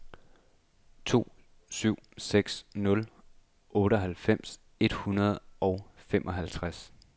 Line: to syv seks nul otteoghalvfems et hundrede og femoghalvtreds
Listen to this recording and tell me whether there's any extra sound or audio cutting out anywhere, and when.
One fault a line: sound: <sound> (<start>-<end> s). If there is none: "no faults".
no faults